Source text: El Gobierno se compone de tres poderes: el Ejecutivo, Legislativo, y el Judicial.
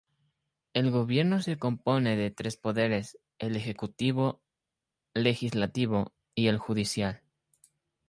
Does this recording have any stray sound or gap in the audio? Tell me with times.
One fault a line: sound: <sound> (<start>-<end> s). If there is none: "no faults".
no faults